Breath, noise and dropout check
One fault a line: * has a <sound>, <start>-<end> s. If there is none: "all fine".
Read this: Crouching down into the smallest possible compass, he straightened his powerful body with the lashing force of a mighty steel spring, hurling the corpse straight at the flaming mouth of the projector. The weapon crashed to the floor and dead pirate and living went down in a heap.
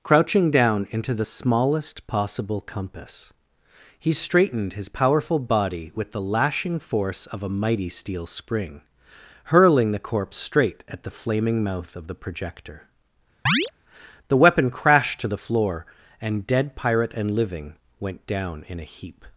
* has a chirp, 13.5-13.7 s